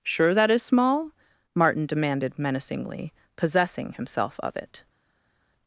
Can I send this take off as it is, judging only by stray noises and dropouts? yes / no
yes